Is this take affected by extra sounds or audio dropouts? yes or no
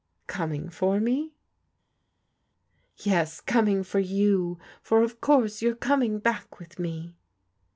no